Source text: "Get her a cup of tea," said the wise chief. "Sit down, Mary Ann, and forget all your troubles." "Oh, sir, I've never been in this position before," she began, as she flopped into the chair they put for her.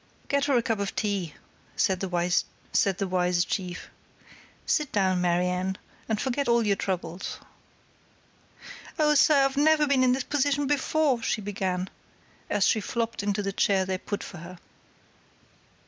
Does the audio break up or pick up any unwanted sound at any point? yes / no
no